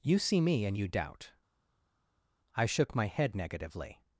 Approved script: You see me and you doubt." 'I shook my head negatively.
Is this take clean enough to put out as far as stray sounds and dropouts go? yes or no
yes